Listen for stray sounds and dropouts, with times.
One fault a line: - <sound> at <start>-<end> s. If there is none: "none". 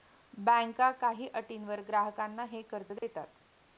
- dropout at 3.0-3.0 s